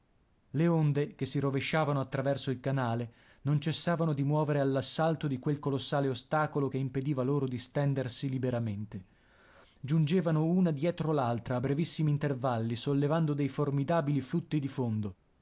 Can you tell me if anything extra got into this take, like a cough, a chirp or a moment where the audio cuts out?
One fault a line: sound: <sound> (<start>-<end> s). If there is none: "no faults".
no faults